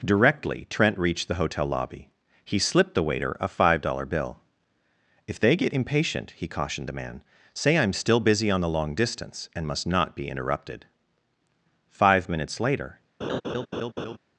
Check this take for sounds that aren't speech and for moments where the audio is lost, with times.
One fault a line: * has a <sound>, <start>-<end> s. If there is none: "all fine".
* has a laugh, 13.2-14.2 s